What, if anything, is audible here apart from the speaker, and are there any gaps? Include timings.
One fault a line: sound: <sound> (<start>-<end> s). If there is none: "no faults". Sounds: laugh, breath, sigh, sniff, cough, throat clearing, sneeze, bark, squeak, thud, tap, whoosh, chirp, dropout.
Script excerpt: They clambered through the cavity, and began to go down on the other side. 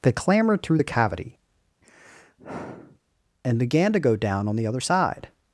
sound: sigh (1.8-3.0 s)